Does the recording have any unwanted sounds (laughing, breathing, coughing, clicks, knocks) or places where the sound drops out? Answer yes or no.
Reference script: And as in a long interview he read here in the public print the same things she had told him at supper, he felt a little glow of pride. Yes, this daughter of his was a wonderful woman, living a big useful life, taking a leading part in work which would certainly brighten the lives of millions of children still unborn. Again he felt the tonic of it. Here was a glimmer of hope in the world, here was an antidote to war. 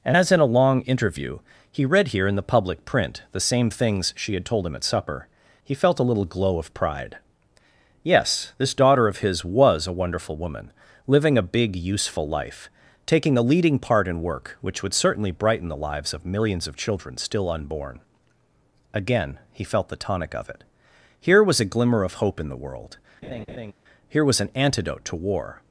yes